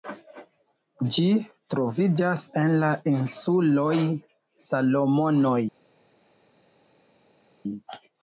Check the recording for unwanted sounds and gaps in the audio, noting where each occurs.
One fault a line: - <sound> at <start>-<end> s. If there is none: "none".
none